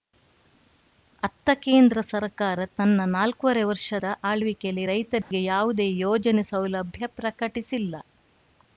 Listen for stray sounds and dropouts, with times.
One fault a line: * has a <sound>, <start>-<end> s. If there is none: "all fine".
* has a dropout, 5.2-5.3 s